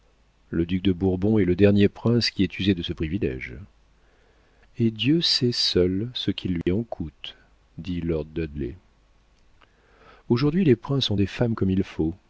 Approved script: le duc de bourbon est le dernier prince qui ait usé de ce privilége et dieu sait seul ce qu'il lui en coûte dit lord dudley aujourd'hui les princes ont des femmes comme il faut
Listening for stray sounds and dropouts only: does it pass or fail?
fail